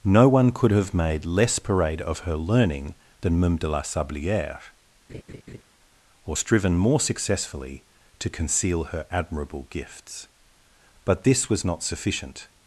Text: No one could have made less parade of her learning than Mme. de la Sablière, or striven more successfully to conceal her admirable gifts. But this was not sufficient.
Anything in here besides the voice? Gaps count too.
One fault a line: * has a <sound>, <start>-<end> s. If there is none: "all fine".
* has a laugh, 5.1-5.6 s